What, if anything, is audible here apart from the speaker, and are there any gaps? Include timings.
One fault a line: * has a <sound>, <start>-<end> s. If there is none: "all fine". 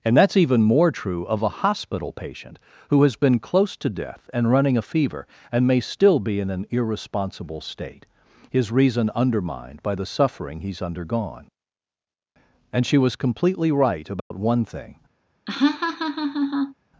* has a dropout, 14.2-14.3 s
* has a laugh, 15.5-16.7 s